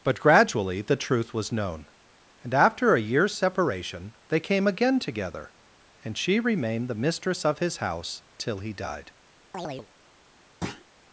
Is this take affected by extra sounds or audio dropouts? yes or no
yes